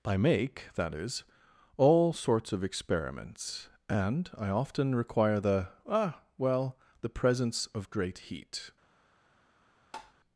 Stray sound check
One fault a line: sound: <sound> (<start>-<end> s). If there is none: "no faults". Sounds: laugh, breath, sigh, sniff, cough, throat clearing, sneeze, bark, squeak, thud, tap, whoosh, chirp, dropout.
sound: tap (9.9-10.1 s)